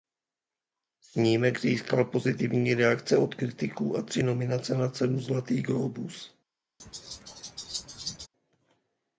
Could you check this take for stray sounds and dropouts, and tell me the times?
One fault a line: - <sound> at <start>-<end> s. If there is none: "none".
- laugh at 6.8-8.3 s